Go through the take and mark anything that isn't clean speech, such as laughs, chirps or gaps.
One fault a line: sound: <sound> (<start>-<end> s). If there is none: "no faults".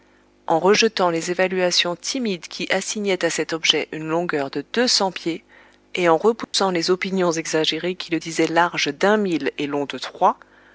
sound: dropout (6.4-6.5 s)